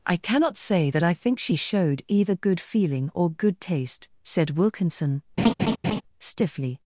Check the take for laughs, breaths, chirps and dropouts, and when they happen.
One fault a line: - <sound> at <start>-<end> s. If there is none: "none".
- laugh at 5.4-6.0 s